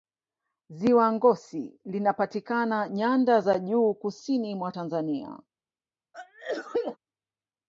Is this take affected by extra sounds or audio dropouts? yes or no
yes